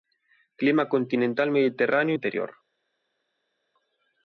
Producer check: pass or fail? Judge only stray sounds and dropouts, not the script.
pass